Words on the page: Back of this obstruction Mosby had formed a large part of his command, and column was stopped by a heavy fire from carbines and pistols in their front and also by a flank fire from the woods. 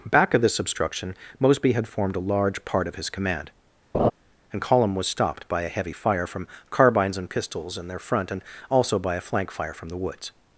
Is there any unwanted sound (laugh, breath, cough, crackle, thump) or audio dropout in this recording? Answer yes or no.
yes